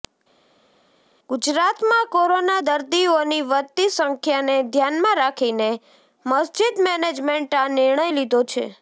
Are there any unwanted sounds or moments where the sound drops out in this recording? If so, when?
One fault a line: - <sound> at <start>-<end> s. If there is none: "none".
none